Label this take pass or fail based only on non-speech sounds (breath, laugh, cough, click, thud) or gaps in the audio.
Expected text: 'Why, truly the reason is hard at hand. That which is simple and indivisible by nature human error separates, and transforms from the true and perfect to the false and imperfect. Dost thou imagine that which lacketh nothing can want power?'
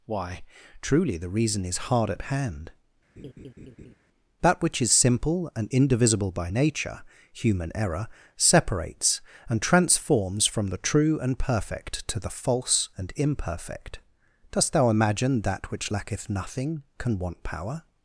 fail